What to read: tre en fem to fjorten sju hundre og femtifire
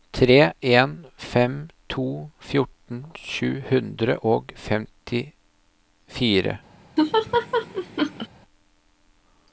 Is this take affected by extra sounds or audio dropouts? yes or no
yes